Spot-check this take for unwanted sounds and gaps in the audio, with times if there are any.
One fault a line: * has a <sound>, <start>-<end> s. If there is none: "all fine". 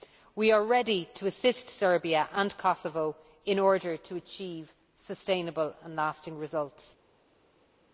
all fine